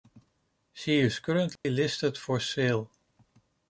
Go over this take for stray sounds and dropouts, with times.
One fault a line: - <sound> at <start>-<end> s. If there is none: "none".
- dropout at 1.6-1.6 s